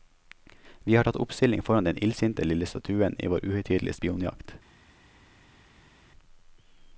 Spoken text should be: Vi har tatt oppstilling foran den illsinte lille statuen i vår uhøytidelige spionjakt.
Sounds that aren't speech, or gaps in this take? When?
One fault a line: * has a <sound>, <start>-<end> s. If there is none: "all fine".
all fine